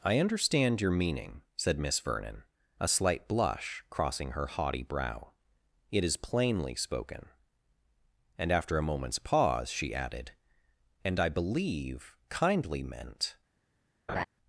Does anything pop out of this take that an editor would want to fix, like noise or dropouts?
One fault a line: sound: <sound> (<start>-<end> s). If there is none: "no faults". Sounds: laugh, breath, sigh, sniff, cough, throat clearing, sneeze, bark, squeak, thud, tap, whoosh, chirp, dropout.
sound: laugh (14.1-14.2 s)